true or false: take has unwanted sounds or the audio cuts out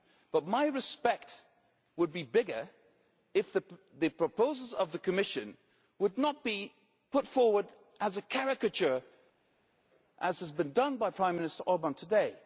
false